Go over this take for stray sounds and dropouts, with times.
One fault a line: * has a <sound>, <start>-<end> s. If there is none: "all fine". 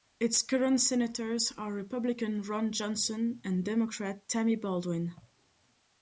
all fine